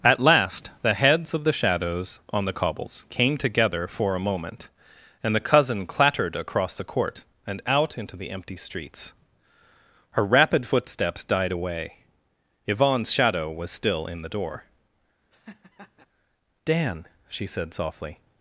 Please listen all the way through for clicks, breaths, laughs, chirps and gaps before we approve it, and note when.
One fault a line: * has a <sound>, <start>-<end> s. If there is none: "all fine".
* has a laugh, 15.3-16.1 s